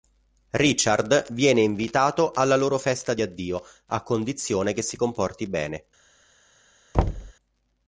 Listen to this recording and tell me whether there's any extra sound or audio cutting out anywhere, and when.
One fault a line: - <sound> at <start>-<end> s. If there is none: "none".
- thud at 6.9-7.3 s